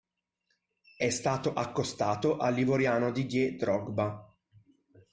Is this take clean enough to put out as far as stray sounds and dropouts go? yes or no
yes